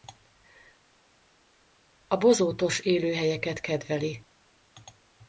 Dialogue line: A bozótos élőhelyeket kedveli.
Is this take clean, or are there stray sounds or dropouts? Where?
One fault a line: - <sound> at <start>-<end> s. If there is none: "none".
none